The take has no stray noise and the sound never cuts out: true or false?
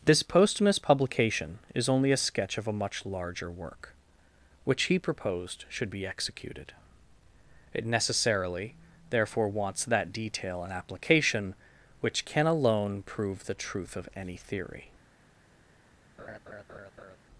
false